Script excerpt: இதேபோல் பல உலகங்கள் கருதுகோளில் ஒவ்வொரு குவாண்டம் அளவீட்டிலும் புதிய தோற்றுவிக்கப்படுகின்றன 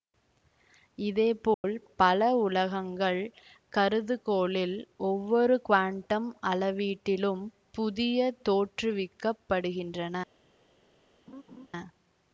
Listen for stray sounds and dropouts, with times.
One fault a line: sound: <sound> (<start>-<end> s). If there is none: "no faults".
sound: dropout (1.5-1.6 s)
sound: laugh (11.3-11.7 s)